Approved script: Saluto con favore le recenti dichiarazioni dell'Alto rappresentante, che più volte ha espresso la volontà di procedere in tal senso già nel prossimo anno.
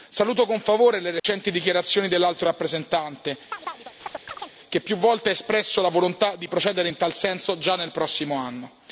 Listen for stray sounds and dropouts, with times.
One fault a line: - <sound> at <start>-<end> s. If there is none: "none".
- dropout at 1.2-1.2 s
- chirp at 3.5-4.6 s